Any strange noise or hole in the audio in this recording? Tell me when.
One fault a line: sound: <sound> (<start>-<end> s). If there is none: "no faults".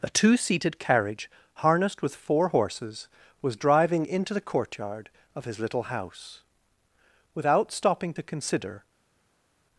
no faults